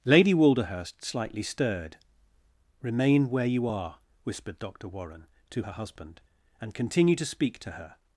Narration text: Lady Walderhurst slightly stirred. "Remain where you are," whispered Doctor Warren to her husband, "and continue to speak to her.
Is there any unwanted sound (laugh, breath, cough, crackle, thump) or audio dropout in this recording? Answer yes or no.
no